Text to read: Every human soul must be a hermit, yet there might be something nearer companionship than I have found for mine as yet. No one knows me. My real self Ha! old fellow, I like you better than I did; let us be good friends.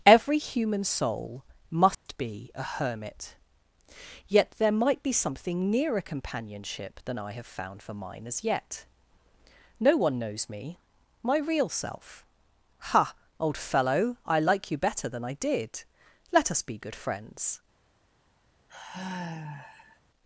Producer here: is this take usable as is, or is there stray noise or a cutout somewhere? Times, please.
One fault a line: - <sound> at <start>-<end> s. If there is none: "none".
- dropout at 1.9-2.1 s
- sigh at 18.7-20.0 s